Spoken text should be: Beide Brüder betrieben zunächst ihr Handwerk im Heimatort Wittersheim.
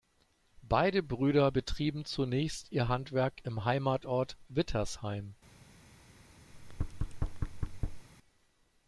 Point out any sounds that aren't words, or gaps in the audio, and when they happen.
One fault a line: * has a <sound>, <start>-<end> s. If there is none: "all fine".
* has a thud, 6.5-8.1 s